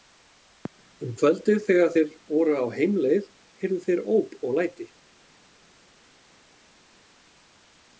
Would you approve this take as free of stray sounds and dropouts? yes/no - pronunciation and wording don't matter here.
yes